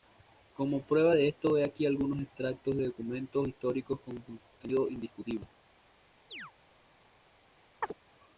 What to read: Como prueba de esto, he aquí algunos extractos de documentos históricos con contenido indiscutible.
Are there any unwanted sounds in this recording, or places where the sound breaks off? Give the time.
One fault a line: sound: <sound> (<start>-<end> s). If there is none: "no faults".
sound: chirp (6.3-6.5 s)
sound: chirp (7.8-7.9 s)